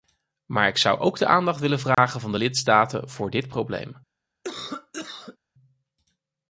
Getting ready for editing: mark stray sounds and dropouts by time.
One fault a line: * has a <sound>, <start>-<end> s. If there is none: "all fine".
* has a dropout, 1.9-2.0 s
* has a cough, 4.4-5.4 s